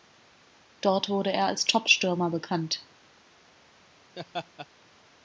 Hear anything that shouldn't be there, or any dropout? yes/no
yes